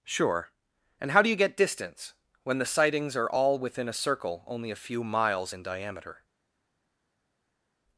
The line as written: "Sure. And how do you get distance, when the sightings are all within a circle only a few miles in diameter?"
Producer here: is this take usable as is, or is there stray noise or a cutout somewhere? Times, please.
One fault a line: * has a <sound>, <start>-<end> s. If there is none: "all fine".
all fine